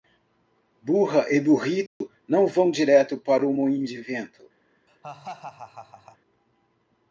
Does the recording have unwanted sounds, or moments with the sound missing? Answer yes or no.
yes